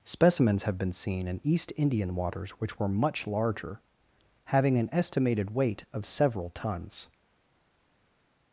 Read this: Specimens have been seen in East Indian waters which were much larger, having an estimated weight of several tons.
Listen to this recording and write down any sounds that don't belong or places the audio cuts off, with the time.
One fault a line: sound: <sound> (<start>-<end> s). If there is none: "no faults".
no faults